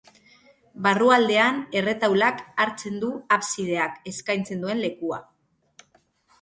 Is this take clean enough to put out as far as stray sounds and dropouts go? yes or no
yes